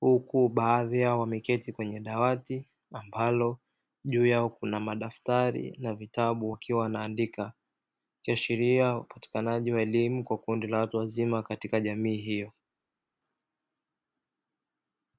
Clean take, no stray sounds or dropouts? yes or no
yes